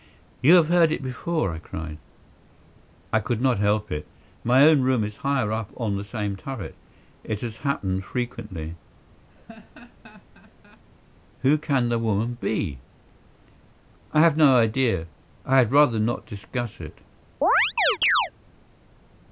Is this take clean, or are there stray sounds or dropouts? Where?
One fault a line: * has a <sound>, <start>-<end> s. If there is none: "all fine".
* has a laugh, 9.3-10.8 s
* has a chirp, 17.4-18.3 s